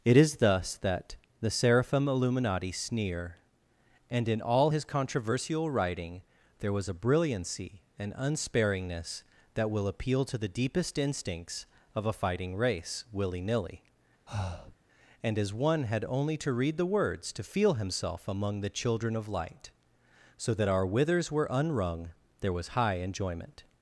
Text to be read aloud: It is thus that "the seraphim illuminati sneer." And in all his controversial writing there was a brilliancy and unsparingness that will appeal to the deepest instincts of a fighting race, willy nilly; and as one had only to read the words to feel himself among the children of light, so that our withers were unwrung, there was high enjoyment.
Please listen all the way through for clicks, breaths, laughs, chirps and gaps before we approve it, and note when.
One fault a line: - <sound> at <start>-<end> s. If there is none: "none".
- breath at 14.3-14.8 s